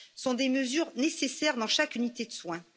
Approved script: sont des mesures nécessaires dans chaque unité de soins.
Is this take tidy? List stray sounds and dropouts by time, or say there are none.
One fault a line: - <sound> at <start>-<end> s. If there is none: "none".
none